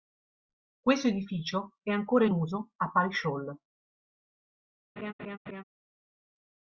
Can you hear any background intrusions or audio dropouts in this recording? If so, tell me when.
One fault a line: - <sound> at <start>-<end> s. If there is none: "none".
- laugh at 5.0-5.6 s